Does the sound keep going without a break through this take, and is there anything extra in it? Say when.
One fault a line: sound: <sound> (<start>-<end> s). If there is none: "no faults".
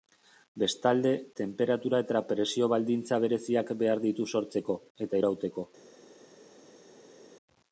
no faults